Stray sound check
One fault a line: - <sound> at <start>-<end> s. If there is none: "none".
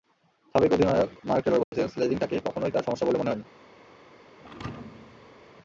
- dropout at 1.6-1.7 s
- thud at 4.4-5.5 s